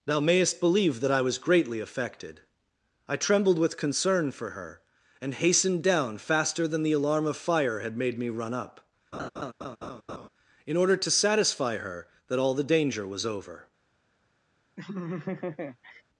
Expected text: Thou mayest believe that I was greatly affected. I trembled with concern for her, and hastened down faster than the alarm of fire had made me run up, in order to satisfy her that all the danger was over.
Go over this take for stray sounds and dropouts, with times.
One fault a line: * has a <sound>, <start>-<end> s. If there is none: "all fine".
* has a laugh, 9.1-10.3 s
* has a laugh, 14.8-16.0 s